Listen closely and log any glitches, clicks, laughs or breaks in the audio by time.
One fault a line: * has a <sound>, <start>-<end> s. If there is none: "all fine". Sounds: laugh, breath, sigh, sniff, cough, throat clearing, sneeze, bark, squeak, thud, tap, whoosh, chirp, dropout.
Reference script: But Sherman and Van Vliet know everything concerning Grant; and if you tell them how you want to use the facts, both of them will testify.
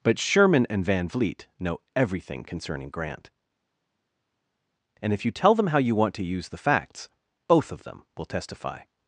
all fine